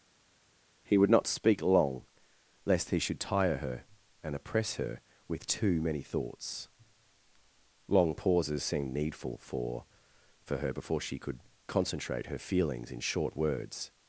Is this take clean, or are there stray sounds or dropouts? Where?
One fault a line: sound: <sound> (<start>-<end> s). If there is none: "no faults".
no faults